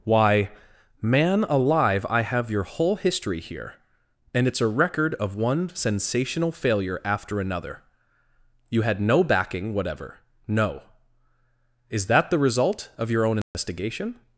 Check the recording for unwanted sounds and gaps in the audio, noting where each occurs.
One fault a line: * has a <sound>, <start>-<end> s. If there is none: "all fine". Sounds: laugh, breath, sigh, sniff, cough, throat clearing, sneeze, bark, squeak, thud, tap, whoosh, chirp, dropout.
* has a dropout, 13.4-13.5 s